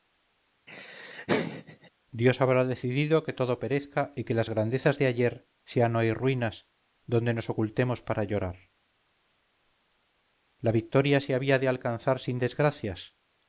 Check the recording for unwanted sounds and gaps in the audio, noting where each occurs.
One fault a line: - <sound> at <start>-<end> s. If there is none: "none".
- laugh at 0.7-1.9 s